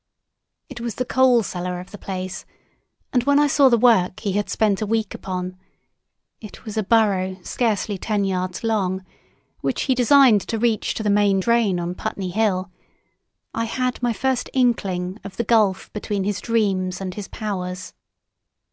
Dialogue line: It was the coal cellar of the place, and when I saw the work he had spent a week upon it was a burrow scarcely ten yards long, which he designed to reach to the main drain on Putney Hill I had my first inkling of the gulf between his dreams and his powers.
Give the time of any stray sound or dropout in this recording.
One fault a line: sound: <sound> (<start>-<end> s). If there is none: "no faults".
no faults